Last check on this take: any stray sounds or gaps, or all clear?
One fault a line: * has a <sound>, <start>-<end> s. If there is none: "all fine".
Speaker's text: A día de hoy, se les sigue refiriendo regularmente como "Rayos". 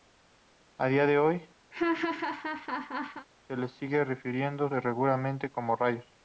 * has a laugh, 1.7-3.3 s